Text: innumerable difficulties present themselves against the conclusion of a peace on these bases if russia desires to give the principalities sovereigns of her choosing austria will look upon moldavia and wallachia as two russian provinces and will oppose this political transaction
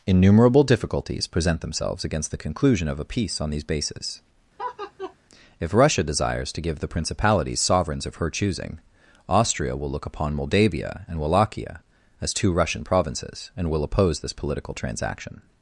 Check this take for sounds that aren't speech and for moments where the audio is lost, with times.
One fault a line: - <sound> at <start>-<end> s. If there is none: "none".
- laugh at 4.6-5.1 s